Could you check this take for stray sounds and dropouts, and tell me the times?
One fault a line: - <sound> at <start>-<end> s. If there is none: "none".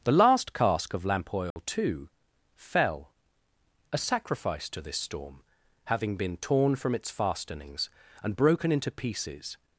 - dropout at 1.5-1.6 s